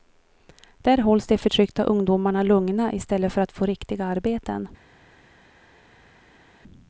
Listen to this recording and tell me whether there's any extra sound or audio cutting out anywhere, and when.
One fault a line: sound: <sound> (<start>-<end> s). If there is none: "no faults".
no faults